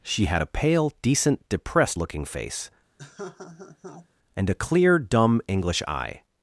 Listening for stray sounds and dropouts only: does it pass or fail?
fail